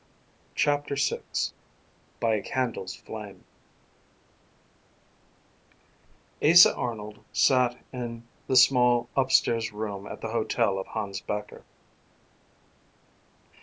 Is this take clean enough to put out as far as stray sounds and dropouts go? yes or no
yes